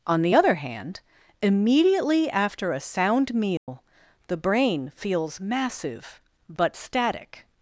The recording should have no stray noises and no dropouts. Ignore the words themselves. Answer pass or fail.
fail